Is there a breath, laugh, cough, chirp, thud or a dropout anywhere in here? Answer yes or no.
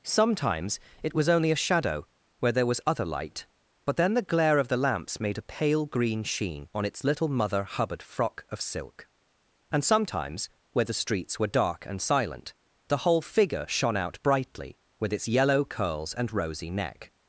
no